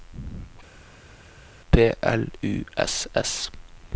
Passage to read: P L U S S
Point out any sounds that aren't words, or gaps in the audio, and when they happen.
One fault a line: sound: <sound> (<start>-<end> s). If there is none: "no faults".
no faults